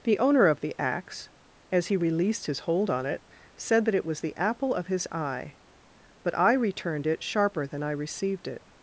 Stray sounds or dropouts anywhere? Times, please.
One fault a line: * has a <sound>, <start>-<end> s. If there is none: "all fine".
all fine